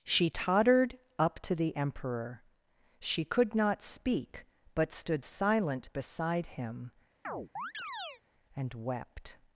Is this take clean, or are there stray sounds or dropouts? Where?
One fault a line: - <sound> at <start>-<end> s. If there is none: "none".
- chirp at 7.2-8.2 s